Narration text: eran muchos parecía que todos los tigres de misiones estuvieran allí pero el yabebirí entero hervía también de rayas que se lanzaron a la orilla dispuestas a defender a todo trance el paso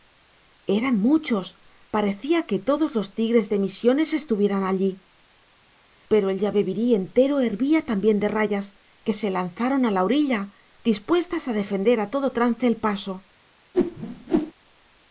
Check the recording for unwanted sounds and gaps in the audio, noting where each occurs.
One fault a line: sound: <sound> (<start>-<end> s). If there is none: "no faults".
sound: whoosh (13.7-14.5 s)